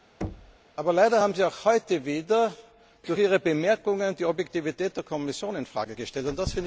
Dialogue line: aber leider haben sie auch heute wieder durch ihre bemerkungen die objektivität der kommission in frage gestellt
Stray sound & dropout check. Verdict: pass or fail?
fail